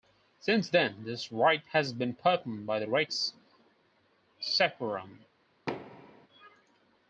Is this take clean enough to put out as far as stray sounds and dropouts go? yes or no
no